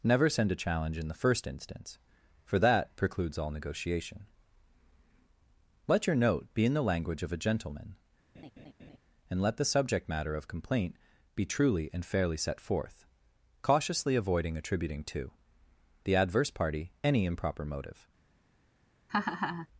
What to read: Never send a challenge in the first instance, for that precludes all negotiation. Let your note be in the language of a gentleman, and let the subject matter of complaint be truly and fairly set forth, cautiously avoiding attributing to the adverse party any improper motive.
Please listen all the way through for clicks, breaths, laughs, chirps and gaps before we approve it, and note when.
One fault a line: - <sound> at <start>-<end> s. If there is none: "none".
- laugh at 8.3-9.0 s
- laugh at 19.1-19.7 s